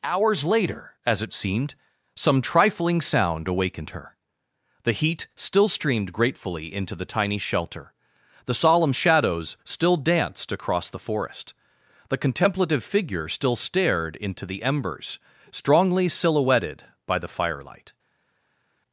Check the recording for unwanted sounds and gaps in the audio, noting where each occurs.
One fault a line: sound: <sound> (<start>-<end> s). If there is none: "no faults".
no faults